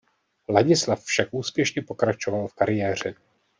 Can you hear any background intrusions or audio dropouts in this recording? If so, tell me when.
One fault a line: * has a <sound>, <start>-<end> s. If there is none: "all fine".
all fine